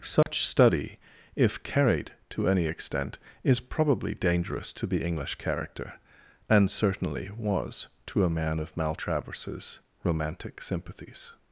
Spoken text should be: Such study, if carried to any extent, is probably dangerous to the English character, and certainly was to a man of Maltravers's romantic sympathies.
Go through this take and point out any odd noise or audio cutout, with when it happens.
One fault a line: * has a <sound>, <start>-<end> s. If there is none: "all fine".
* has a dropout, 0.2-0.3 s